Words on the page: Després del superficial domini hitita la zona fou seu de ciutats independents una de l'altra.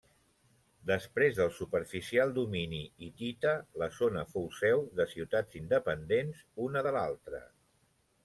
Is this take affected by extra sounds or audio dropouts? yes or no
no